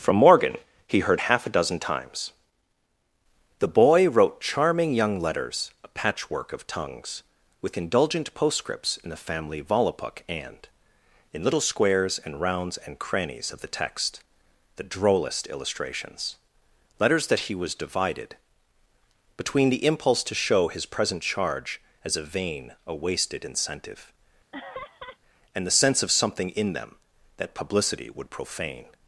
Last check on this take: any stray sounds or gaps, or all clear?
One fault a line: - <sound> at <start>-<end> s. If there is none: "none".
- laugh at 24.5-25.2 s